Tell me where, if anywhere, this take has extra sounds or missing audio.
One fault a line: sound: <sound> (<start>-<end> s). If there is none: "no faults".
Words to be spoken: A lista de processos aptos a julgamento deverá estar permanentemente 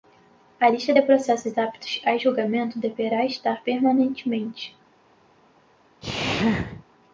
sound: sneeze (6.0-6.8 s)